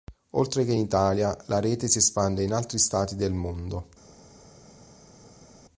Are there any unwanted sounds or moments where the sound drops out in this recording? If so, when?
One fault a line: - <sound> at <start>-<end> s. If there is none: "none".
none